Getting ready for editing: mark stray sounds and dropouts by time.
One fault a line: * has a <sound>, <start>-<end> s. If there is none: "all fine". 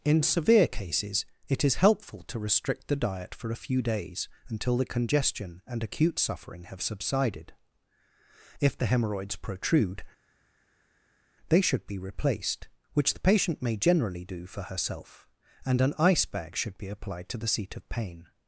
all fine